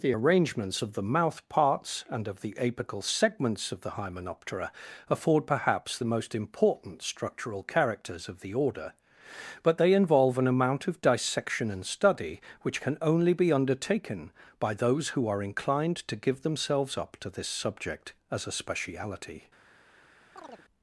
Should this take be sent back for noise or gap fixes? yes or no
yes